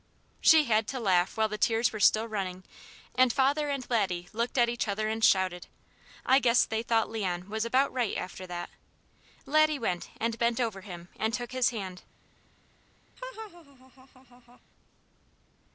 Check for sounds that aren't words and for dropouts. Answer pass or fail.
fail